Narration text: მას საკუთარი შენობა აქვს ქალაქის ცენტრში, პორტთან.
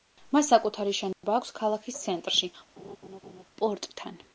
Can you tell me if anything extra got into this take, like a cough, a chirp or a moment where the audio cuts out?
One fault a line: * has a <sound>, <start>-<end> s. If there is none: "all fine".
* has a dropout, 1.1-1.2 s
* has a laugh, 2.8-3.4 s